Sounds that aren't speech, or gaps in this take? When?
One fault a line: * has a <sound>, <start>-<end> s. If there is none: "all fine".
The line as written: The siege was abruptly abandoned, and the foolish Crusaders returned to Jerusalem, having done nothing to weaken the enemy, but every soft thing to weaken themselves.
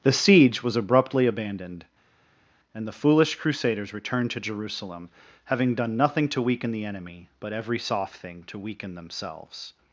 all fine